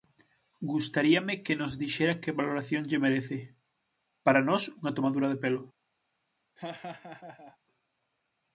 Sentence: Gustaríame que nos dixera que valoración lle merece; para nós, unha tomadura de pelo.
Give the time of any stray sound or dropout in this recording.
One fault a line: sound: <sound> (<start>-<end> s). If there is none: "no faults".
sound: laugh (6.6-7.6 s)